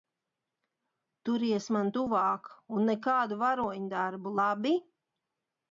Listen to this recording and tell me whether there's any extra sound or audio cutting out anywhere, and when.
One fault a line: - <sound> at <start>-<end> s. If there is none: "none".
none